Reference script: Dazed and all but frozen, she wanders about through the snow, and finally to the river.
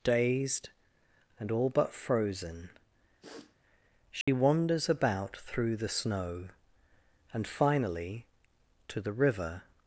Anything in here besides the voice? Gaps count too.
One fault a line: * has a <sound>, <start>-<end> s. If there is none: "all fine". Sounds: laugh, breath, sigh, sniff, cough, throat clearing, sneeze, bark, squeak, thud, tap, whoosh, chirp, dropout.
* has a sniff, 3.2-3.6 s
* has a dropout, 4.2-4.3 s